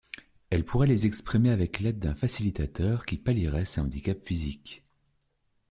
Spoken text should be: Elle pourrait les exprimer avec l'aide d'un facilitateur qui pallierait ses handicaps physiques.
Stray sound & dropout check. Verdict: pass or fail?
pass